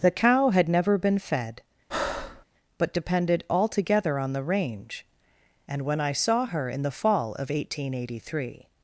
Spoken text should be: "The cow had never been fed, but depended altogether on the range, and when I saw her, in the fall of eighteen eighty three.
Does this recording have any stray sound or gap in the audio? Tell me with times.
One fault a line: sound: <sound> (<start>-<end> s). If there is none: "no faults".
sound: breath (1.9-2.4 s)